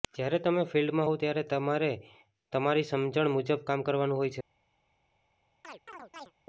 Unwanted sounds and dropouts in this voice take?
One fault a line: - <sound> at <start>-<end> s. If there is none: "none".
- chirp at 5.6-6.3 s